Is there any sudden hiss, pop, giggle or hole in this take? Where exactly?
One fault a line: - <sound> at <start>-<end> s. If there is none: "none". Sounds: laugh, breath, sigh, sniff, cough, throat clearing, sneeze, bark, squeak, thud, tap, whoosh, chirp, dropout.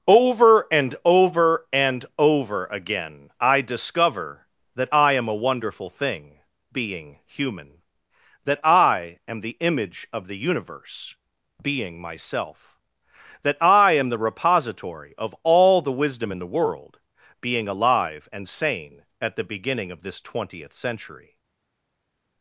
none